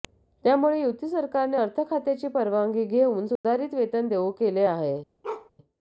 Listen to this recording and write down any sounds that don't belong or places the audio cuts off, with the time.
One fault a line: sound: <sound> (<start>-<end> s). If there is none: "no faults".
sound: dropout (3.4-3.4 s)
sound: bark (5.2-5.5 s)